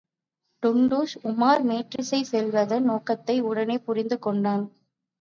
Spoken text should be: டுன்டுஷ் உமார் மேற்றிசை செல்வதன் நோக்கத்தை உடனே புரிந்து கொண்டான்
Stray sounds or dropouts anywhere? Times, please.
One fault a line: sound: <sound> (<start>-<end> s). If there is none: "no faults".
sound: dropout (2.0-2.0 s)